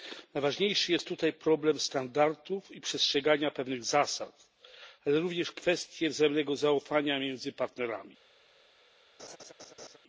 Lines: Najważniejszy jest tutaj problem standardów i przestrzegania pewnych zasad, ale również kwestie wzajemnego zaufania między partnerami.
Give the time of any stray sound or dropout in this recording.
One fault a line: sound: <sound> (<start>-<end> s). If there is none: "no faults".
sound: laugh (9.2-10.0 s)